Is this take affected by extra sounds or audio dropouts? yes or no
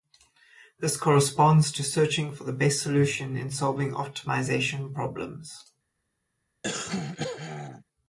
yes